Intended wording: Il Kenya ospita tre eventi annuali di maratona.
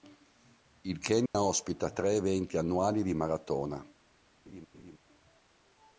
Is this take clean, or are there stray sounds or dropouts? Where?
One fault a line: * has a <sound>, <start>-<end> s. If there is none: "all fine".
* has a dropout, 1.3-1.3 s
* has a laugh, 4.4-5.0 s